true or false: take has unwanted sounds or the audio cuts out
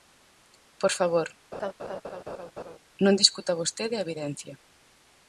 true